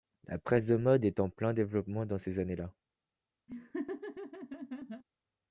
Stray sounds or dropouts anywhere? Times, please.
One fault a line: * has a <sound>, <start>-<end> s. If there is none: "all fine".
* has a laugh, 3.5-5.0 s